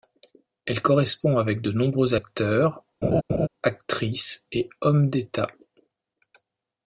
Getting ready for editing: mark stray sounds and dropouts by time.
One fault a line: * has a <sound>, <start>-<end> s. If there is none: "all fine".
* has a laugh, 3.0-3.5 s